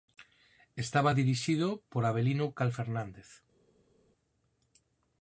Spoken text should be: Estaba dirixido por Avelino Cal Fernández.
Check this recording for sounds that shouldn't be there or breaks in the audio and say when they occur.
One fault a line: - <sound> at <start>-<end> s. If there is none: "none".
none